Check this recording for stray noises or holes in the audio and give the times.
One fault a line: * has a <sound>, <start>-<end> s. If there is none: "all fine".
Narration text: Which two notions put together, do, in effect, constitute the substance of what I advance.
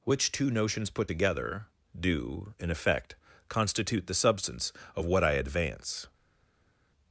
all fine